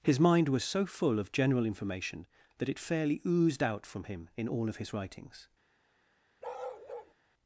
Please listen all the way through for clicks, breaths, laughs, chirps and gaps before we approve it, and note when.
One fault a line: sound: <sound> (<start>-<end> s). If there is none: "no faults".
sound: bark (6.4-7.1 s)